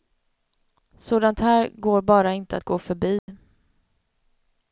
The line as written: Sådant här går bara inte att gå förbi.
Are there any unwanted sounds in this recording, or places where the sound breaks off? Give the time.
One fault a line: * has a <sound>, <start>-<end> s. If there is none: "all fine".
* has a dropout, 3.2-3.3 s